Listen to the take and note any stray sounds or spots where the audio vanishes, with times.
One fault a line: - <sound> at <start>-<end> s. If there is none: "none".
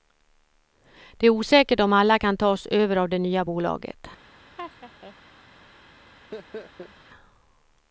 - laugh at 4.6-5.2 s
- laugh at 6.3-6.9 s